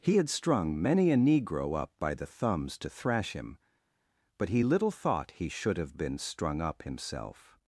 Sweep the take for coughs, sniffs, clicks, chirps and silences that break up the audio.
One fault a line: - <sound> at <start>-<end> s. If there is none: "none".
none